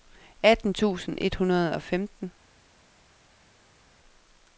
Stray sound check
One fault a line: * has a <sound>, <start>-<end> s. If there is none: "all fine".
all fine